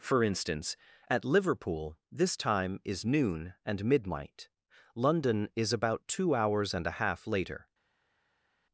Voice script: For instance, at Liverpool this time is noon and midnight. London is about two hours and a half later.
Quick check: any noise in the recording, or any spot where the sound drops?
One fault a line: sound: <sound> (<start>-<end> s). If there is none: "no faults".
no faults